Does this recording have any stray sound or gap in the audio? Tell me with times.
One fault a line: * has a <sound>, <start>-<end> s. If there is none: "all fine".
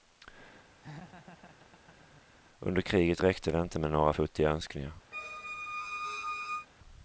* has a laugh, 0.8-2.3 s
* has a squeak, 5.1-6.7 s